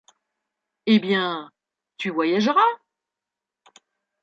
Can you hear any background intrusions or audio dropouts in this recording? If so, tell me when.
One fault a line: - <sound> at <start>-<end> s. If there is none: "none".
none